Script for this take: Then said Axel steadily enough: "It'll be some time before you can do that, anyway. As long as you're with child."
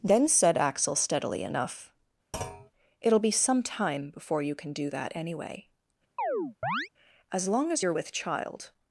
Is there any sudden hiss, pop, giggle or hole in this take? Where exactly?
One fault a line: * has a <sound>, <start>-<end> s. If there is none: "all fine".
* has a thud, 2.3-2.7 s
* has a chirp, 6.2-6.9 s